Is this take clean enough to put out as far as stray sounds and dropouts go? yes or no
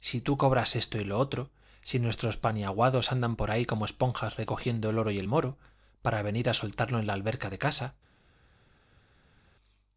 yes